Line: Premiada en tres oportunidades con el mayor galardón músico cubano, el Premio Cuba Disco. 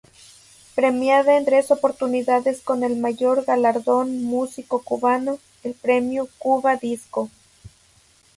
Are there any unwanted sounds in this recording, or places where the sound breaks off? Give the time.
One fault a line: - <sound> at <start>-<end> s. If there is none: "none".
none